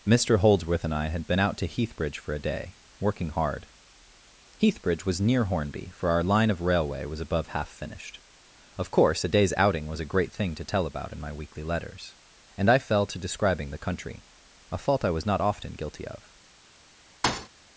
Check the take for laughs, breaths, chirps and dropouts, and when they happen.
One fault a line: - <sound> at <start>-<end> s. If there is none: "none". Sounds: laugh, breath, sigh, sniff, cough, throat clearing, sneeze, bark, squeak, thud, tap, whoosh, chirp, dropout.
- thud at 17.2-17.5 s